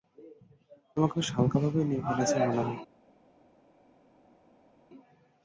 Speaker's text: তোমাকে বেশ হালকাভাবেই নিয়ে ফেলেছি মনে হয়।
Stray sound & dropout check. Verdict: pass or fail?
pass